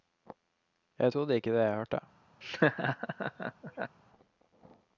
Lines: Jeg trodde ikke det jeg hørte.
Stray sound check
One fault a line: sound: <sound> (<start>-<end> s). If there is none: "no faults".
sound: laugh (2.4-4.0 s)